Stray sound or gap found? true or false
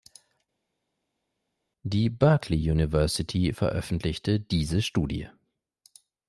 false